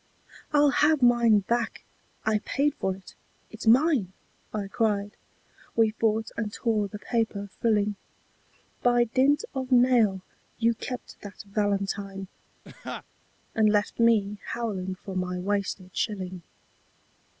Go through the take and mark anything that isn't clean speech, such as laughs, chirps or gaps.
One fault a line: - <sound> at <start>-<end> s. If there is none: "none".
- laugh at 12.6-13.0 s